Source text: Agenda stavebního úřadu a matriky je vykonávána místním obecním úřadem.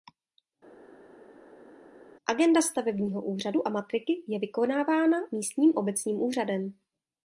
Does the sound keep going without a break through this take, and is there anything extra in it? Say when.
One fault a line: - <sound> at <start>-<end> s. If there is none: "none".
none